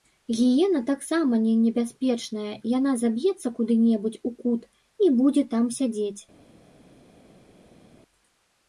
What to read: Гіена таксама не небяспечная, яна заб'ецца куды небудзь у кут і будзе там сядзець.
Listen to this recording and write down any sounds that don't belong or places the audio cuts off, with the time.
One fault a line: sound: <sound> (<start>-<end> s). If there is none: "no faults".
no faults